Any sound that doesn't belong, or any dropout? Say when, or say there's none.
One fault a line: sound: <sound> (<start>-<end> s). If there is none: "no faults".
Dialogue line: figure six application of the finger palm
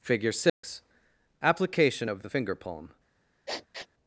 sound: dropout (0.5-0.6 s)
sound: sniff (3.5-3.9 s)